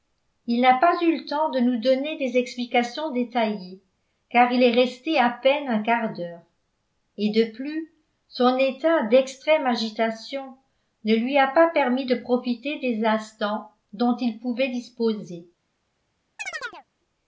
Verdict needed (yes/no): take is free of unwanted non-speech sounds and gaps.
no